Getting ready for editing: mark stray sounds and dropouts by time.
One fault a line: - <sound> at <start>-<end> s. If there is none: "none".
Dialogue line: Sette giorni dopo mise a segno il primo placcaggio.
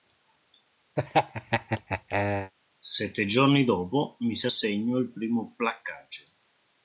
- laugh at 1.0-2.5 s